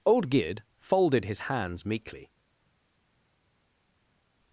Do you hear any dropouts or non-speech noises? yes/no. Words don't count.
no